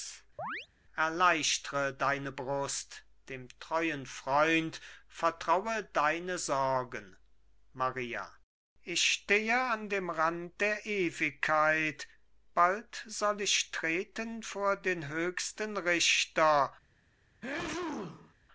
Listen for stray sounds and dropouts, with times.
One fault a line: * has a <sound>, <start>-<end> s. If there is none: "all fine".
* has a chirp, 0.4-0.7 s
* has a sneeze, 17.4-18.3 s